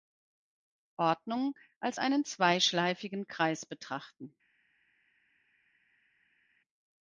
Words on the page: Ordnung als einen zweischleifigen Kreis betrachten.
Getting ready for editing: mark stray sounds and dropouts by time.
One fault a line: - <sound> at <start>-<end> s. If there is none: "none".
none